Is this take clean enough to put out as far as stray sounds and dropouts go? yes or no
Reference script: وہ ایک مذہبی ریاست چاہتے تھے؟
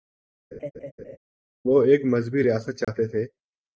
no